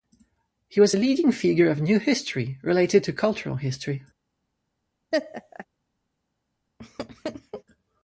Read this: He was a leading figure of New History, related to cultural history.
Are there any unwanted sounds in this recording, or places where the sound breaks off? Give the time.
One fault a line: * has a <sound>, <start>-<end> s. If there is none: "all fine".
* has a laugh, 5.1-5.7 s
* has a laugh, 6.8-7.6 s